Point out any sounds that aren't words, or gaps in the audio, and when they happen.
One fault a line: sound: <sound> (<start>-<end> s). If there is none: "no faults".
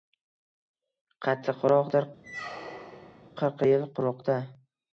sound: squeak (2.2-3.3 s)